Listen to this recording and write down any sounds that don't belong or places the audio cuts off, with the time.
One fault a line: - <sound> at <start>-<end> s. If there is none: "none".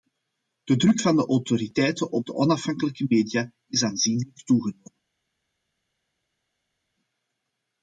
none